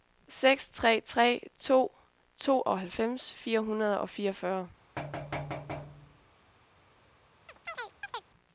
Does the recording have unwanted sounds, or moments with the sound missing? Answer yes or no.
yes